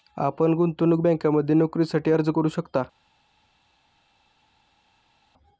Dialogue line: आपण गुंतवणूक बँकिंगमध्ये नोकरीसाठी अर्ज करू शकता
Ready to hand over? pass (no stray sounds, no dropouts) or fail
pass